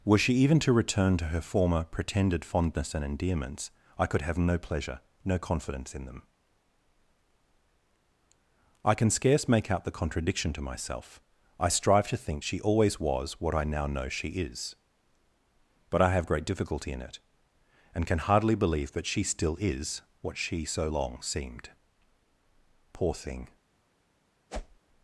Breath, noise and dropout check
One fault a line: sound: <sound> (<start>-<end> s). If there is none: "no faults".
sound: whoosh (24.5-24.8 s)